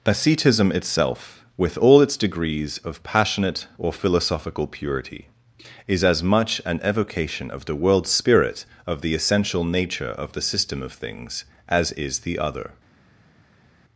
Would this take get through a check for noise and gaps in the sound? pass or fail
pass